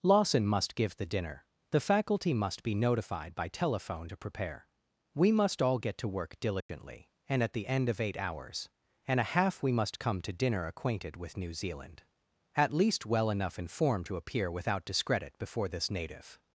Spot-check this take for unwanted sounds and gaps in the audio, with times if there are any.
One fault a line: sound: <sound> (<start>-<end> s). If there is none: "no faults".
sound: dropout (6.6-6.7 s)